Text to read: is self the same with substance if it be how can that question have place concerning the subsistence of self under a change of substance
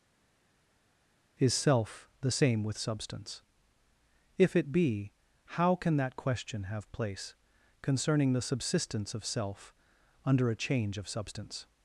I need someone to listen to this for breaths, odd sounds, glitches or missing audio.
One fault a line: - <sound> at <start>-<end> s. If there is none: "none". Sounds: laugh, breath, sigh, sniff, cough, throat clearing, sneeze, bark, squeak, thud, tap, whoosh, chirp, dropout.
none